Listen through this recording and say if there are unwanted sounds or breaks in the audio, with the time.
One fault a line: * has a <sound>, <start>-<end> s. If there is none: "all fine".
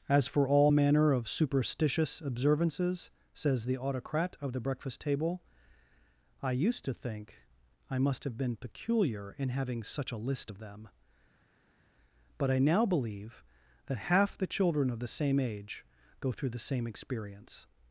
all fine